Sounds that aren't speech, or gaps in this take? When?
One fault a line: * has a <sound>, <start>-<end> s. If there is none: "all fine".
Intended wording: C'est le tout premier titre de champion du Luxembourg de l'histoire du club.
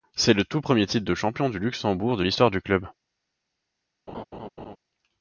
* has a laugh, 4.1-4.8 s